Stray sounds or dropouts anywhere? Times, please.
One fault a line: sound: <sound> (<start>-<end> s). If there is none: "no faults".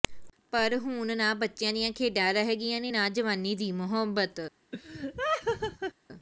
sound: laugh (4.7-5.9 s)